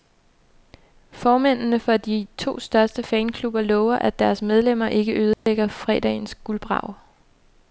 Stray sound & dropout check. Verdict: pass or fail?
fail